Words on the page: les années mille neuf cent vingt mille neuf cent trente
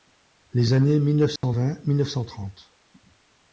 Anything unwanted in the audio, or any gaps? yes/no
yes